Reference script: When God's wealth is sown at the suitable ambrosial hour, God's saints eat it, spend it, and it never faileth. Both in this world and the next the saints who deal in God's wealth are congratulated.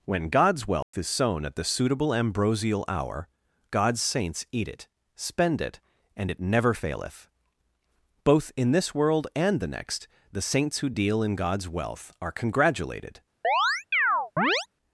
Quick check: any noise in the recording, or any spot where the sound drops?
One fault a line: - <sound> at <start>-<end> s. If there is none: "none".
- dropout at 0.8-0.9 s
- chirp at 13.4-14.7 s